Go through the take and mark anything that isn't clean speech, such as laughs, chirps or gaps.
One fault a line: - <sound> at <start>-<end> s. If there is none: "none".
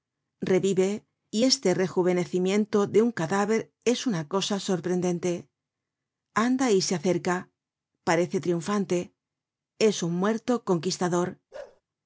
- bark at 11.5-11.8 s